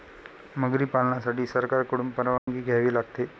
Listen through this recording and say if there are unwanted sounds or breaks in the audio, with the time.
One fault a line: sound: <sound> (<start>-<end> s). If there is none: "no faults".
sound: dropout (2.4-2.5 s)